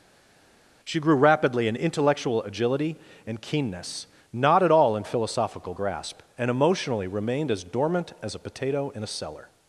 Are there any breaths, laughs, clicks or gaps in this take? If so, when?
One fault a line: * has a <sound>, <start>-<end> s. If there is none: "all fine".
all fine